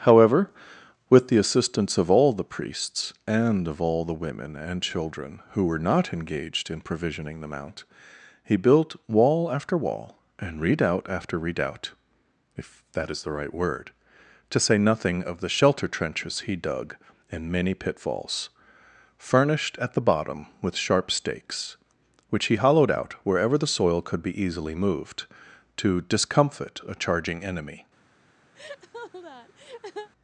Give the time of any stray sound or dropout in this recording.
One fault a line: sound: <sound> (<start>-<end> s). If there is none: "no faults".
sound: laugh (28.5-30.1 s)